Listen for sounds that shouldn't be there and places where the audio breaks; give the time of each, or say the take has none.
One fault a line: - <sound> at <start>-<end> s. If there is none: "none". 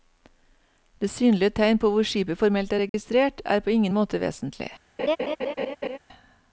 - dropout at 2.9-2.9 s
- laugh at 5.0-6.0 s